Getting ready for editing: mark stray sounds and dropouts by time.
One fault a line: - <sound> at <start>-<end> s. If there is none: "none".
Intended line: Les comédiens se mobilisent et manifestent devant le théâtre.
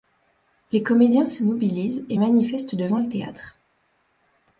none